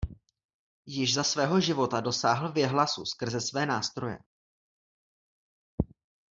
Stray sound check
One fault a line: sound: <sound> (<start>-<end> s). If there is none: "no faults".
no faults